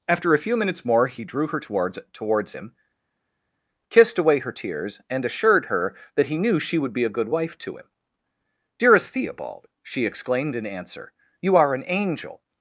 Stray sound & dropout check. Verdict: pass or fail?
pass